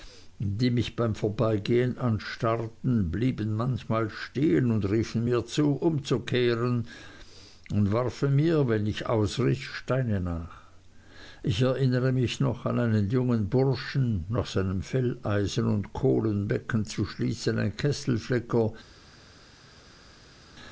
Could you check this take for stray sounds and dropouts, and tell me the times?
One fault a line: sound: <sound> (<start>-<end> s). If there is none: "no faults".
no faults